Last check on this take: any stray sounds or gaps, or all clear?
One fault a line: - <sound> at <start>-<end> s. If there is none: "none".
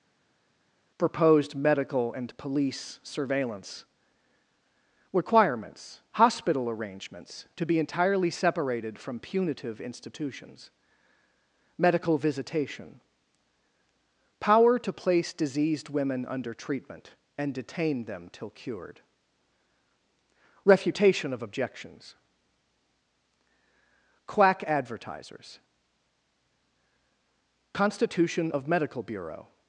none